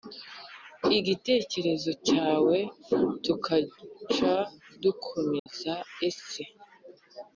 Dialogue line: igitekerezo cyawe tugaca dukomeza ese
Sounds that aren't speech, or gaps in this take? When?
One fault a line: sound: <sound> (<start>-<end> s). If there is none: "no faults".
sound: dropout (5.4-5.5 s)